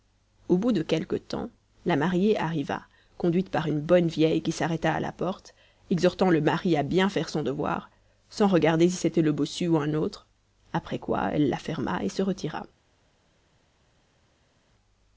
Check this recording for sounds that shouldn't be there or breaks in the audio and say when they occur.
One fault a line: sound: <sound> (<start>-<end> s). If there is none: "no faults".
no faults